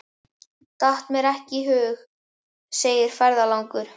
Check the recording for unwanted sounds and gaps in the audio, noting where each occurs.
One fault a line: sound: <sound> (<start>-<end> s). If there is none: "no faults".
no faults